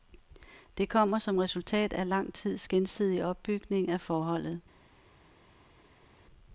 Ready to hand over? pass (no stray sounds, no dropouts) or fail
pass